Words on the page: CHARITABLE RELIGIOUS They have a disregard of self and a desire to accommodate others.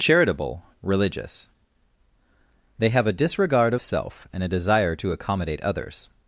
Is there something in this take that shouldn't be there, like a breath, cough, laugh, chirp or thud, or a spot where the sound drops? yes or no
no